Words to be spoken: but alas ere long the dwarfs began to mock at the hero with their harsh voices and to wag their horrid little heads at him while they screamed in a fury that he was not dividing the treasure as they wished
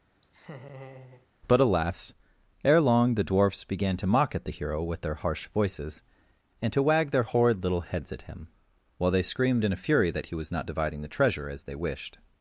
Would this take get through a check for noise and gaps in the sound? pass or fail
fail